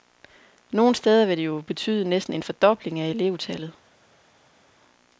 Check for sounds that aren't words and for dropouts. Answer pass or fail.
pass